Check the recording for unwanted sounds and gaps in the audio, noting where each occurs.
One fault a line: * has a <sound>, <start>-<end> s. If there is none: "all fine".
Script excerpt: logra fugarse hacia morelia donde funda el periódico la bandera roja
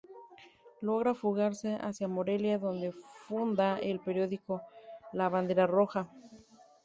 all fine